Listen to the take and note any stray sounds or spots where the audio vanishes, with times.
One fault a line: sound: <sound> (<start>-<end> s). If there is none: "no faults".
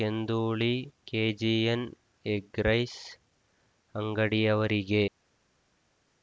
no faults